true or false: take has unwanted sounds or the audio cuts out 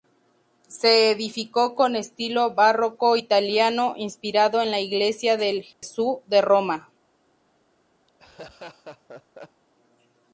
true